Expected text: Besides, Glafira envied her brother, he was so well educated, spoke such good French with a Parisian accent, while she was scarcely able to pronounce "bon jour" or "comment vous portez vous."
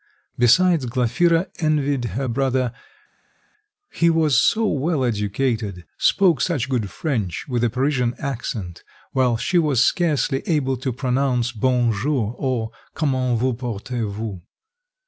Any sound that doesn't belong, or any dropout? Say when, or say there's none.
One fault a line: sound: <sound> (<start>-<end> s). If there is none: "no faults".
no faults